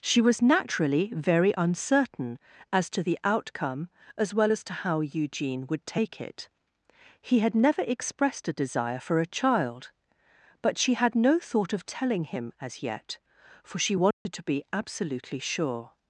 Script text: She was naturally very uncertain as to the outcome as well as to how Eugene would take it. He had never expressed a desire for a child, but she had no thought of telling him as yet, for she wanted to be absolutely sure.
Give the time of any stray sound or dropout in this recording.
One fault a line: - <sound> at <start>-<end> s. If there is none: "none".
- dropout at 14.1-14.3 s